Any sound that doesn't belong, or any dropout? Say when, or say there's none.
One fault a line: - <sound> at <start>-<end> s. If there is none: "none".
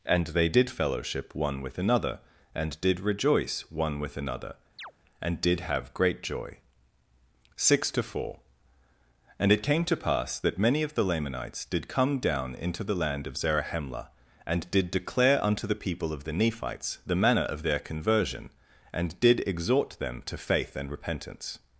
- chirp at 4.8-4.9 s